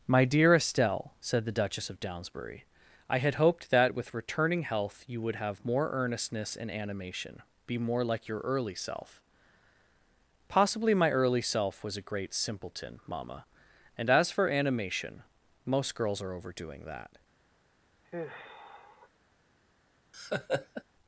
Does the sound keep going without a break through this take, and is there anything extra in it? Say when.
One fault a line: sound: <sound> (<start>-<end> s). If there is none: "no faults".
sound: sigh (18.0-19.1 s)
sound: laugh (20.1-20.8 s)